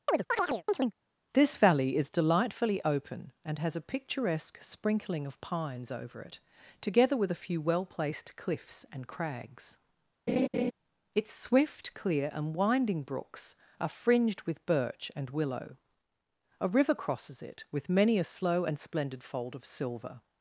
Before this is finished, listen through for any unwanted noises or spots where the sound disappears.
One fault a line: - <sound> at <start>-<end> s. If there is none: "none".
- chirp at 0.1-0.9 s
- laugh at 10.3-10.7 s